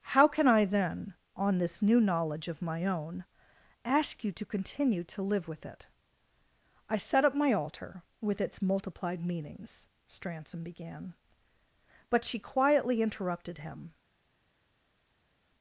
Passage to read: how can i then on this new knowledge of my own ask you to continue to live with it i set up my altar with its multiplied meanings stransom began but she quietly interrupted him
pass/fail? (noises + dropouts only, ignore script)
pass